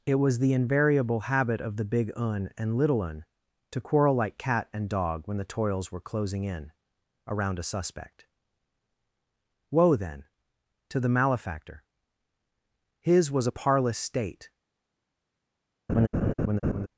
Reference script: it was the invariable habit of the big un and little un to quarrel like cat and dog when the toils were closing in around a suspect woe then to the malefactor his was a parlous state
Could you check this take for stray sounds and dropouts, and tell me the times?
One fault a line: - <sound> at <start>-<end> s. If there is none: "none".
- laugh at 15.9-16.9 s